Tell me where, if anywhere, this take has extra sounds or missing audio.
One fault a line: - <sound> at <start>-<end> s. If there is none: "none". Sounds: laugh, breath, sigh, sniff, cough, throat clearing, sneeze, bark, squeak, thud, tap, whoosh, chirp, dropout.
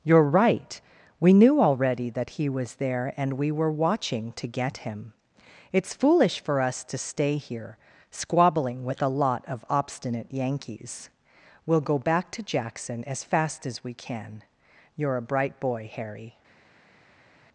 none